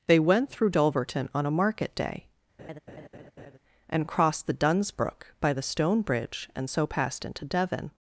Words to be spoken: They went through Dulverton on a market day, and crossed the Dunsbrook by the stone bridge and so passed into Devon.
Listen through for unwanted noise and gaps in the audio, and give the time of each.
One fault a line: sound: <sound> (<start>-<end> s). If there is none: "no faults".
sound: laugh (2.6-3.6 s)